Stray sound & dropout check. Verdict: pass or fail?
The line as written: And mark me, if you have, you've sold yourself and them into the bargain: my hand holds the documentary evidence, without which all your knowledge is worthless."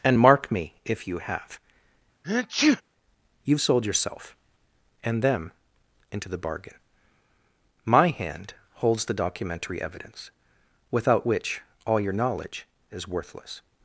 fail